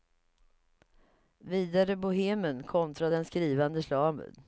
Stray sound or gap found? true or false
false